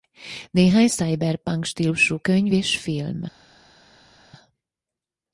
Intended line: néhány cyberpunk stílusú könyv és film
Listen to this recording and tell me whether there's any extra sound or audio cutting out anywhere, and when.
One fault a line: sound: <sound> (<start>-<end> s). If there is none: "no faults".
no faults